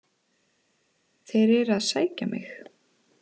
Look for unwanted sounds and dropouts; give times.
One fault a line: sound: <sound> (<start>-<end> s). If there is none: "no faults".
no faults